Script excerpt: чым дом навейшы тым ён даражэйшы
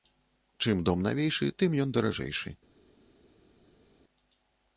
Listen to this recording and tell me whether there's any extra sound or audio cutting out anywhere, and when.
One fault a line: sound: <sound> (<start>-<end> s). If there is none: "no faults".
no faults